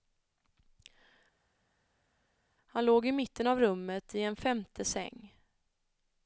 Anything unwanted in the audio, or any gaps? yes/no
no